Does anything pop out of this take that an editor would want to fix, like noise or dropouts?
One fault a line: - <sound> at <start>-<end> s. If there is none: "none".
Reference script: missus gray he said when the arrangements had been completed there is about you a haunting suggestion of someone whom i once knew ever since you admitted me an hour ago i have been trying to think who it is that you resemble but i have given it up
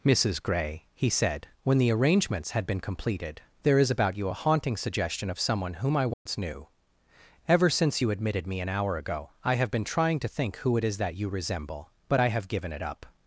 - dropout at 6.1-6.3 s